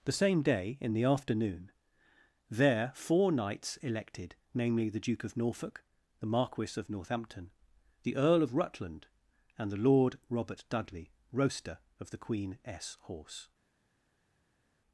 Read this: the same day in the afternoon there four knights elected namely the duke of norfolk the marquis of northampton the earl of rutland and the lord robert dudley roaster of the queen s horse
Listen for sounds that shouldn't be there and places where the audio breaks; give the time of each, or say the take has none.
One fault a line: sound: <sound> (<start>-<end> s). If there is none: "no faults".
no faults